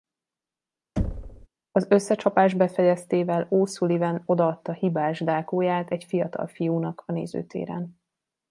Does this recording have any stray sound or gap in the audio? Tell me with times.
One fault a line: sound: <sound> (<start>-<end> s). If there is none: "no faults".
sound: thud (1.0-1.5 s)